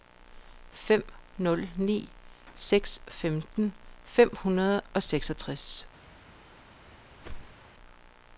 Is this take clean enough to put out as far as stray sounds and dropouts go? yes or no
no